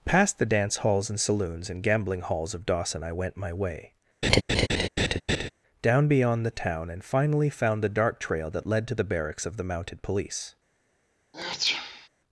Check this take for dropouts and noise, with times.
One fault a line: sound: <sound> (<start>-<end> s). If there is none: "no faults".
sound: laugh (4.2-5.5 s)
sound: sneeze (11.3-12.1 s)